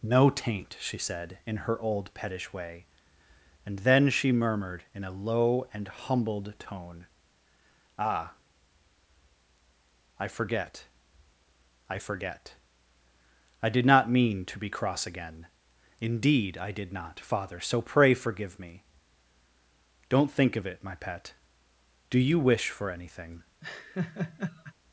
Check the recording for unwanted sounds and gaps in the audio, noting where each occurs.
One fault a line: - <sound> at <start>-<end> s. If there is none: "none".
- laugh at 23.6-24.7 s